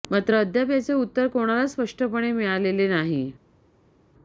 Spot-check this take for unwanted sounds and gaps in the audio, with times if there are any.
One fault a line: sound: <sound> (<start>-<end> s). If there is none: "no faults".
no faults